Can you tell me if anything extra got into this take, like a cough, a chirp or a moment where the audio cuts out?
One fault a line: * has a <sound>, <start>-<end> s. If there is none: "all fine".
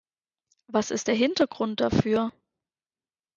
all fine